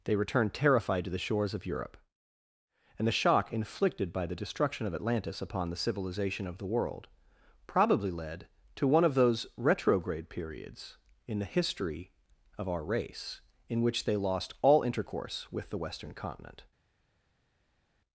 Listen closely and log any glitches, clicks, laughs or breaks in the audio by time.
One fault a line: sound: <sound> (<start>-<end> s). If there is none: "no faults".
no faults